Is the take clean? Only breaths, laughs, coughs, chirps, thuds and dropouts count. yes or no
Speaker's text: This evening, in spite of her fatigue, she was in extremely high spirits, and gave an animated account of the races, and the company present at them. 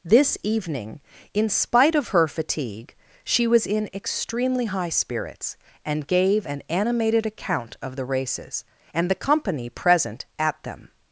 yes